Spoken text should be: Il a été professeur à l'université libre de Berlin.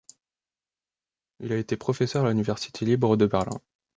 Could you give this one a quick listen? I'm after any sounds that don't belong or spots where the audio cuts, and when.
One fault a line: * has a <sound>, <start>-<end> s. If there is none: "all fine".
all fine